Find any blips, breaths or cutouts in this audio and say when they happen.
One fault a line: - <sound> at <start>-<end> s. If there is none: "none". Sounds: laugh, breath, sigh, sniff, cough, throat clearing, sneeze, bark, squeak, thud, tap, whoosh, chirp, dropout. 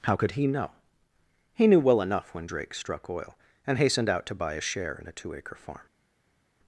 none